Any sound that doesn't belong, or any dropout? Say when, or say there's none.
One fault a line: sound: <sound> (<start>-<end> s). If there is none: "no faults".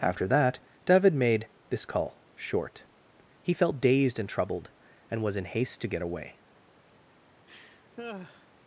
sound: laugh (7.5-8.5 s)